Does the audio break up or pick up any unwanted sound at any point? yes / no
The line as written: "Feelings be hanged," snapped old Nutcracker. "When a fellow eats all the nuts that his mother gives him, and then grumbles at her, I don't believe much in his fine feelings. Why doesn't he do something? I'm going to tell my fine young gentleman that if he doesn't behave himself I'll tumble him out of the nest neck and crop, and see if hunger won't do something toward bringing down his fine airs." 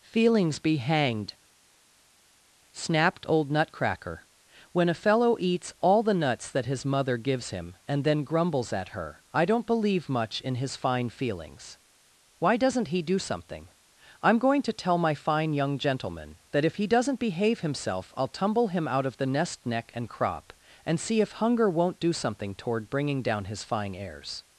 no